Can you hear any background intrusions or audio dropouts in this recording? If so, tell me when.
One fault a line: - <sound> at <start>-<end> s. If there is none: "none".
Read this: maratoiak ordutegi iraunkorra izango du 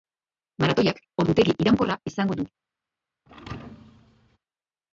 - thud at 3.3-4.4 s